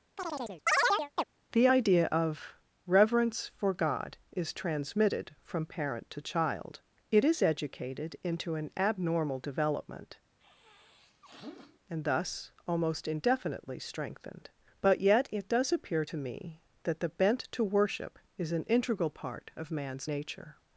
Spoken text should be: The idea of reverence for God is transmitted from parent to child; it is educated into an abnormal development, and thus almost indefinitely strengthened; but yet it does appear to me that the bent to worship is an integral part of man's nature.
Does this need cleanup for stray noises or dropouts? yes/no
yes